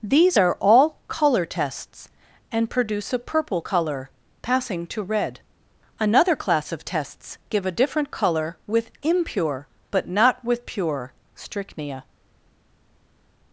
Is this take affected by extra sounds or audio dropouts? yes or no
no